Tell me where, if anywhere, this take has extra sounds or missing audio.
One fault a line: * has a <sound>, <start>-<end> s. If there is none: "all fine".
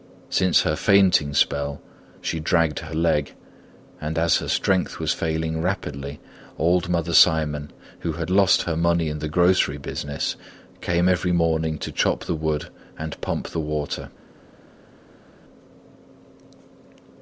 all fine